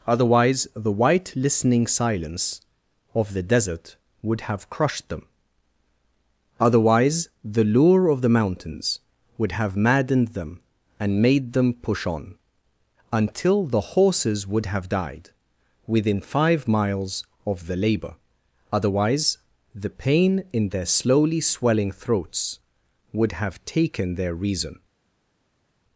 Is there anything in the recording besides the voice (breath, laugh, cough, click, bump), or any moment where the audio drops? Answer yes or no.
no